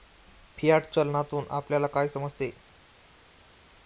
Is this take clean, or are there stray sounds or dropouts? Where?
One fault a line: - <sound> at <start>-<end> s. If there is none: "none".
none